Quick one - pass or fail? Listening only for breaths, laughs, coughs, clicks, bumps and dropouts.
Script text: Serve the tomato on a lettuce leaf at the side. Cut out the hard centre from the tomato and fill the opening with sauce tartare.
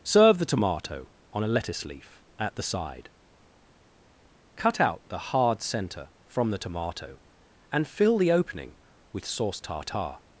pass